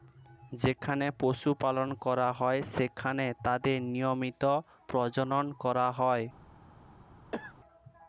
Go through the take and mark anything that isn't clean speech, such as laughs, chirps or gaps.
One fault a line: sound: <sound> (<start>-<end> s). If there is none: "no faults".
sound: cough (7.3-7.5 s)